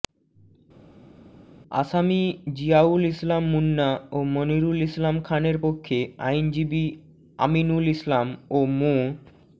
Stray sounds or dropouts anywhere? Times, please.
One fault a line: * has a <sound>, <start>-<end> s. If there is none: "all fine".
all fine